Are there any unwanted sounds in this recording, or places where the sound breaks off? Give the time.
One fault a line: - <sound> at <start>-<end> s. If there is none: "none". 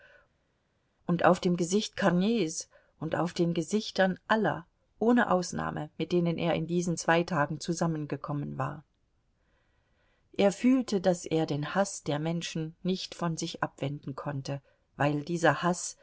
none